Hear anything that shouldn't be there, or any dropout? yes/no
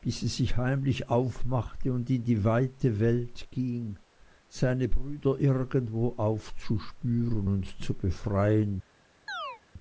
yes